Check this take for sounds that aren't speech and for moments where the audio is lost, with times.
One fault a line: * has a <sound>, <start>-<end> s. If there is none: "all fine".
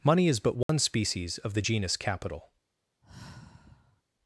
* has a dropout, 0.6-0.7 s
* has a sigh, 3.0-4.0 s